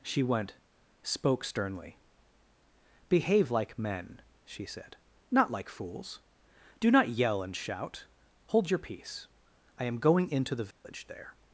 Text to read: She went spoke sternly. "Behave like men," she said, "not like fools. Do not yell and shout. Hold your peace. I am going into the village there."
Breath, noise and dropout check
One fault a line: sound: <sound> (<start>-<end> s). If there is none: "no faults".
sound: dropout (10.7-10.8 s)